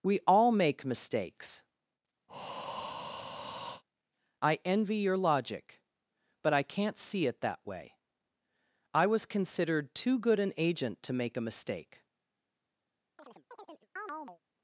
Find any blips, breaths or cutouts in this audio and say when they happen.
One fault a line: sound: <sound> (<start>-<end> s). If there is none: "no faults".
sound: breath (2.3-3.8 s)
sound: chirp (13.2-14.4 s)